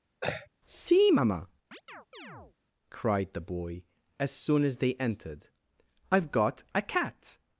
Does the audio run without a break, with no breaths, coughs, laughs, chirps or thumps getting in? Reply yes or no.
no